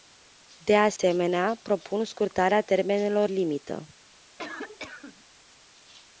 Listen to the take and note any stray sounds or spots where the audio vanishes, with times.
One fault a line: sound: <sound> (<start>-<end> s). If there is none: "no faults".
sound: dropout (1.0-1.0 s)
sound: cough (4.4-5.2 s)